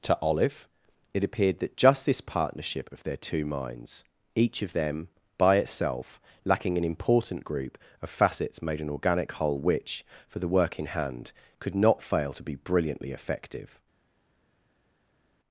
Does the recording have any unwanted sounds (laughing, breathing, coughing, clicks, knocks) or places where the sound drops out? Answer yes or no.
no